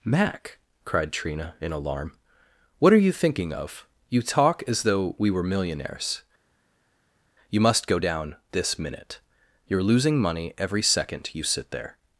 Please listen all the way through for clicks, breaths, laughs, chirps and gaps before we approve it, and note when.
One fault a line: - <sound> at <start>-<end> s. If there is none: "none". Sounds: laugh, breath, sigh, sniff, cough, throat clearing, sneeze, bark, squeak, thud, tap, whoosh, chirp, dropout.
none